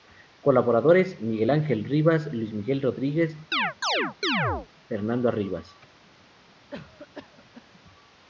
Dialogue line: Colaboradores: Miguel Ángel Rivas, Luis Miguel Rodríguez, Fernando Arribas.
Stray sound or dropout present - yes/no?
yes